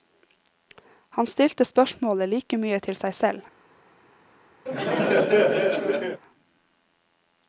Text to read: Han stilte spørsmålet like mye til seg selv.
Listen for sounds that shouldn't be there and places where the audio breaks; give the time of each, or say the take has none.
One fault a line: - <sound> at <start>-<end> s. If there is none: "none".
- laugh at 4.7-6.2 s